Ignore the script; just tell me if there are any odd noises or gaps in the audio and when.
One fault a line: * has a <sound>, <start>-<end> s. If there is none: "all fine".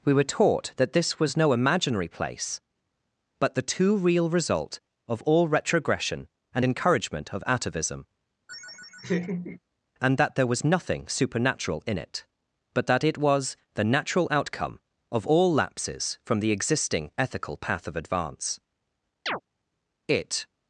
* has a laugh, 8.5-9.6 s
* has a chirp, 19.3-19.4 s